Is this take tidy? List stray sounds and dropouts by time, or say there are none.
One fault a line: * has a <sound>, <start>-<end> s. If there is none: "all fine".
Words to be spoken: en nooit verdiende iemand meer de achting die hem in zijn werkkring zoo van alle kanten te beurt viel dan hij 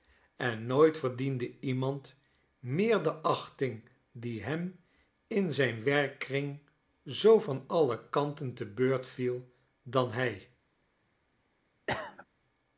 * has a cough, 11.9-12.3 s